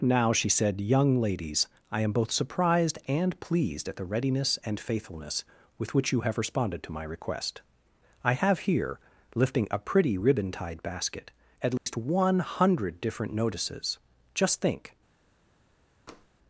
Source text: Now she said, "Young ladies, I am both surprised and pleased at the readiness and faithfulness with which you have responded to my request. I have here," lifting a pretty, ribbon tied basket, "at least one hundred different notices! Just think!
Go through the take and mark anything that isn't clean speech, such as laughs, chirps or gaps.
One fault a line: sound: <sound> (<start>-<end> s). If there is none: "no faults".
sound: dropout (11.8-11.9 s)
sound: tap (16.1-16.3 s)